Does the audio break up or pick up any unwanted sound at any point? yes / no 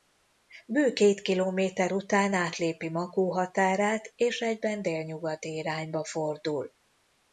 no